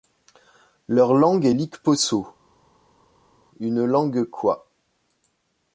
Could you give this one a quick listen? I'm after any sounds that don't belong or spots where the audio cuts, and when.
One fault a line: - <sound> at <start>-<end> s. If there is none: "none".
none